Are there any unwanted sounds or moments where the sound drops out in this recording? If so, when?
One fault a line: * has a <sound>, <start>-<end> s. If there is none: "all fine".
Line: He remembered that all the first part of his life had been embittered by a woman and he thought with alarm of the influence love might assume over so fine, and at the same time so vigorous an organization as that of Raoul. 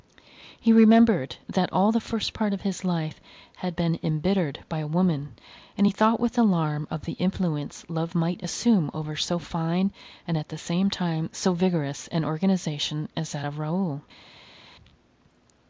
all fine